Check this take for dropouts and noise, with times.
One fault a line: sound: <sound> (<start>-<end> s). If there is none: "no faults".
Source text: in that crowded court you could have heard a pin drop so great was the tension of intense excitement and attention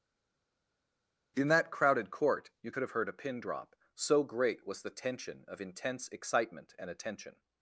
no faults